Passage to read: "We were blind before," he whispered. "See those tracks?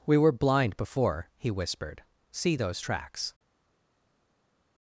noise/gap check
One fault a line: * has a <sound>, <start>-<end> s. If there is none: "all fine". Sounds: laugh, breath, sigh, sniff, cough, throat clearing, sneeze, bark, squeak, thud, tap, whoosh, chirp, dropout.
all fine